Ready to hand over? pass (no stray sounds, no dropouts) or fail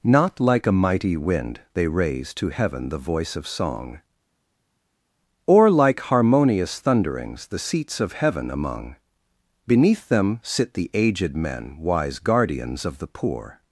pass